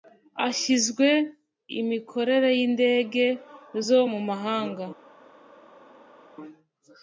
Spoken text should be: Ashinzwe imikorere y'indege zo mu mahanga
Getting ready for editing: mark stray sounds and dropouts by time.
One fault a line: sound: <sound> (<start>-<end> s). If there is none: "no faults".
no faults